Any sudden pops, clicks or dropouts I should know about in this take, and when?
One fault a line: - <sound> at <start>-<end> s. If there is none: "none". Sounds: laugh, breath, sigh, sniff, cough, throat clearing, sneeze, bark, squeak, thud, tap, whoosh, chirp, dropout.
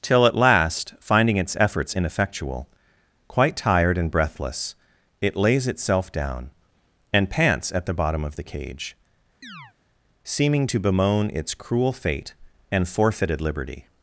- chirp at 9.4-9.7 s